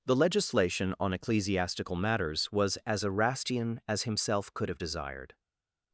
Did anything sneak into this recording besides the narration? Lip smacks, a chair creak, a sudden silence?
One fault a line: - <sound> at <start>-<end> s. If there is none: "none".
none